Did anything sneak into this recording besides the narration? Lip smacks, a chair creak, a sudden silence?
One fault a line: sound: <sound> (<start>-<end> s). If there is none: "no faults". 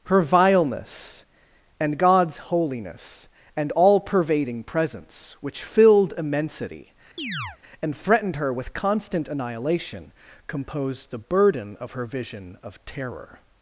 sound: chirp (7.2-7.6 s)